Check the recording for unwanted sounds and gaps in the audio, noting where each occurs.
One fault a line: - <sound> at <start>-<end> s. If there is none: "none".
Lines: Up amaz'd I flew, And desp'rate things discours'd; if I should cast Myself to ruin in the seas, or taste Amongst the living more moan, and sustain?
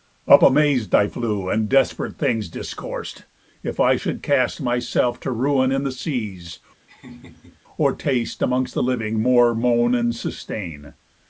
- laugh at 6.9-7.6 s